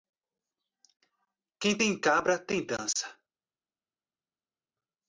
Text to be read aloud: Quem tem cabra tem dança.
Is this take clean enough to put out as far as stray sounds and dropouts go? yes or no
yes